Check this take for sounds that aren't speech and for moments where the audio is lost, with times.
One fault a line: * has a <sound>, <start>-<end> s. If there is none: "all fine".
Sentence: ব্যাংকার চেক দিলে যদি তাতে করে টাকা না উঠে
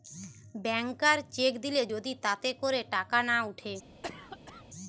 * has a cough, 4.0-4.6 s